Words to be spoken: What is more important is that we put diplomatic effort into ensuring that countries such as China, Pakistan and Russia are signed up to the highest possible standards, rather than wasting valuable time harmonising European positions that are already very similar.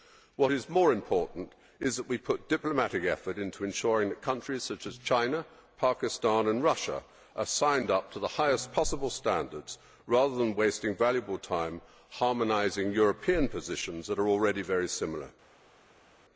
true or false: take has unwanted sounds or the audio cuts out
false